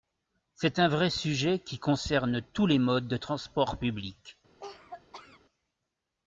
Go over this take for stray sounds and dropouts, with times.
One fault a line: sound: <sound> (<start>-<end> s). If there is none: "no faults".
sound: cough (4.6-5.4 s)